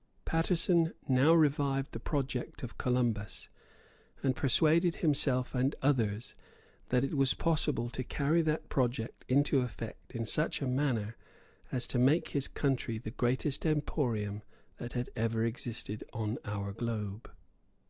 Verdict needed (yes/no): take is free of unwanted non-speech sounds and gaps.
yes